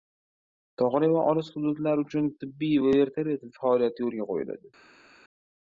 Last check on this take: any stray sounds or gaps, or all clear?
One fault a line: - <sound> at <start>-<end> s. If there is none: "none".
none